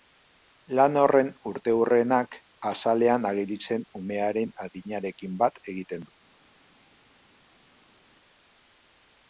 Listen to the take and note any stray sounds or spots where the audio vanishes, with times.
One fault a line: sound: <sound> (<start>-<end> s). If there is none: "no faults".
no faults